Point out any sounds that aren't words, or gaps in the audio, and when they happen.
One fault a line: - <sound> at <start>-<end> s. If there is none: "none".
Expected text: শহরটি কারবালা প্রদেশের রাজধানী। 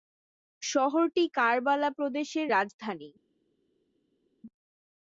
none